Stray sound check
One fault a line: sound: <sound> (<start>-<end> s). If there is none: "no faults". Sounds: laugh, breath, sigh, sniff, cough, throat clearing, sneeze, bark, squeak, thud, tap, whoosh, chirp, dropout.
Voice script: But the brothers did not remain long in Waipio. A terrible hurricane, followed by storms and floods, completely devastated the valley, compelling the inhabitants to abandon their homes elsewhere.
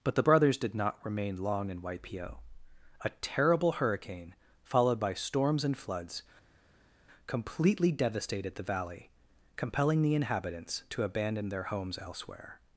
no faults